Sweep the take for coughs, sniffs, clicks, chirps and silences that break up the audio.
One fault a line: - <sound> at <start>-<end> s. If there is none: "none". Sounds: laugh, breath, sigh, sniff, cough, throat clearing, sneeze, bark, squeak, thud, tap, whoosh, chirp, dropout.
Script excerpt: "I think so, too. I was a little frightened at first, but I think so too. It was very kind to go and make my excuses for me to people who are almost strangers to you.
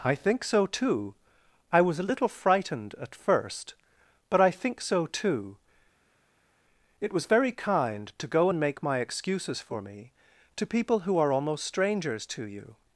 none